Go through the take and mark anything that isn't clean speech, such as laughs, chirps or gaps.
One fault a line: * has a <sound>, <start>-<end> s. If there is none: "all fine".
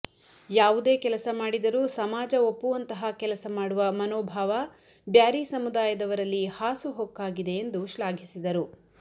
all fine